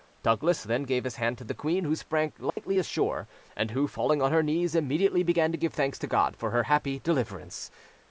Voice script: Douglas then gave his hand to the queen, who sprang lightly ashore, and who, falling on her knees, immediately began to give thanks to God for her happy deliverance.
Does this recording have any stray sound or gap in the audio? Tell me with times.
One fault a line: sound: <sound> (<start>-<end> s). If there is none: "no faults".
sound: dropout (2.5-2.6 s)